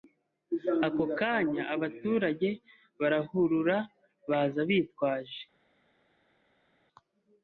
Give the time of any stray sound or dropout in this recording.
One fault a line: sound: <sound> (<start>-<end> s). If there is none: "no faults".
no faults